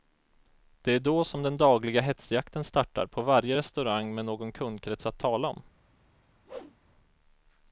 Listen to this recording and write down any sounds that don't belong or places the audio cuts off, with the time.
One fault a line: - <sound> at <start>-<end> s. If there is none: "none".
- whoosh at 6.5-6.8 s